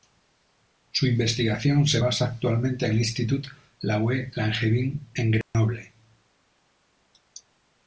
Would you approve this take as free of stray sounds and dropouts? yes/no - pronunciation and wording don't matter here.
no